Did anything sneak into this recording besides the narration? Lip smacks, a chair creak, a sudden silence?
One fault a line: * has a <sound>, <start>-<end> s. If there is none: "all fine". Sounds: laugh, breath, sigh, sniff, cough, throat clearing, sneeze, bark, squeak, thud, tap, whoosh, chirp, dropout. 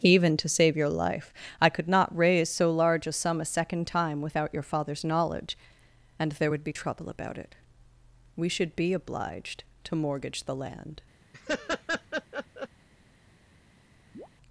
* has a laugh, 11.3-12.7 s
* has a chirp, 14.1-14.3 s